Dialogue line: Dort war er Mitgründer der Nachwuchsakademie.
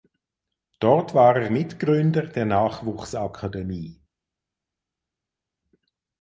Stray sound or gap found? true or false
false